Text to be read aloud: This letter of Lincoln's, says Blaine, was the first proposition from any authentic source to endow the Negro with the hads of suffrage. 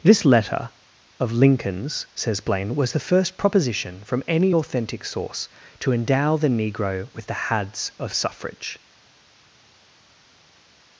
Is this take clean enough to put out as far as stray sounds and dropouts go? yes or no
yes